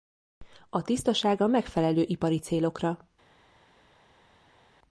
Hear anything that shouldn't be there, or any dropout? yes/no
no